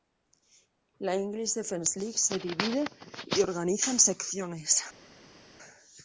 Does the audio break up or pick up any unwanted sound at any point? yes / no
no